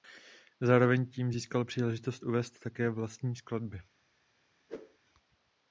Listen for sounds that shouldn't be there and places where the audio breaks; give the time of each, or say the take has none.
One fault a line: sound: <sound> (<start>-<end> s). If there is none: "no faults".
sound: whoosh (4.7-5.0 s)